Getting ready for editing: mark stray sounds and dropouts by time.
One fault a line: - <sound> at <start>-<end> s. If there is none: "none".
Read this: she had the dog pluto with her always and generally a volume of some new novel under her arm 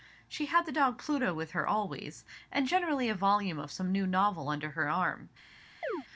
- chirp at 5.8-6.1 s